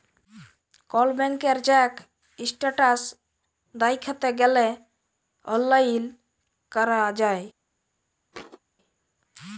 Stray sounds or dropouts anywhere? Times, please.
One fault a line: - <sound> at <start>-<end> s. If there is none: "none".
- thud at 8.3-8.6 s